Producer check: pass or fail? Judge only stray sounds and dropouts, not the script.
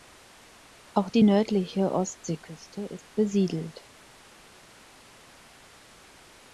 pass